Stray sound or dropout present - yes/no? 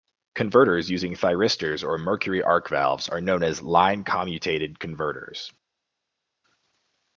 no